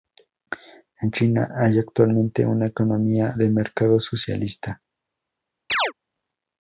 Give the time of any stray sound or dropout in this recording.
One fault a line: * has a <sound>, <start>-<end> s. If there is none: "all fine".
* has a chirp, 5.7-5.9 s